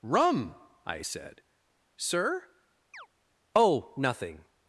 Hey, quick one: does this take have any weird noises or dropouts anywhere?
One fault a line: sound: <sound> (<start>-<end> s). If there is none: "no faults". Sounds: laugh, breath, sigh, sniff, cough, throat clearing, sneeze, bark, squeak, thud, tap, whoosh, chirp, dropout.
sound: chirp (2.9-3.1 s)